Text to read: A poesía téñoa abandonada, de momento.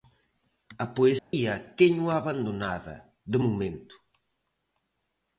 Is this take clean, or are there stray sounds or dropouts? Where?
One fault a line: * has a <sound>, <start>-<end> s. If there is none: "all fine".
* has a dropout, 1.2-1.3 s